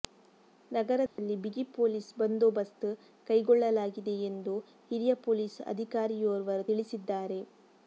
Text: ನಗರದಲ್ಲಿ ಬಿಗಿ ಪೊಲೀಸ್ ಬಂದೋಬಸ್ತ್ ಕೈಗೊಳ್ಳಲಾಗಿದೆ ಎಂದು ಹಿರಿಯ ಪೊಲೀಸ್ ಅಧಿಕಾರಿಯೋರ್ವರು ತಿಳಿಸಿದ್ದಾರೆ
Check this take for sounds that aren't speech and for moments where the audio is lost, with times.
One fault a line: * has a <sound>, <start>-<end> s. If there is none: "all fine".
* has a dropout, 1.1-1.2 s